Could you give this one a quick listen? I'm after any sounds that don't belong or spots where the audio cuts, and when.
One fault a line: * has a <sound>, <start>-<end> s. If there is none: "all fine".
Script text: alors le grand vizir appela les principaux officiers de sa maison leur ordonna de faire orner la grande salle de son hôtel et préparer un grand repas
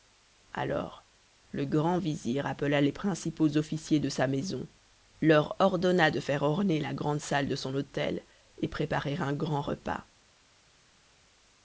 all fine